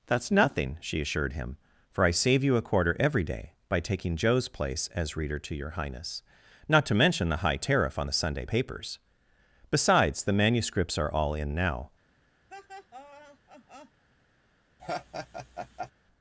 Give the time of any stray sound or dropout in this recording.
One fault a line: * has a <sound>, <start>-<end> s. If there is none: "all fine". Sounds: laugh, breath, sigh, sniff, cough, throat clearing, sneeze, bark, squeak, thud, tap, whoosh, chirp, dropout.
* has a laugh, 12.5-14.0 s
* has a laugh, 14.8-15.9 s